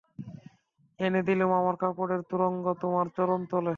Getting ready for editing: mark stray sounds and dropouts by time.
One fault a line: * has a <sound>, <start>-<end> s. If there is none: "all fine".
all fine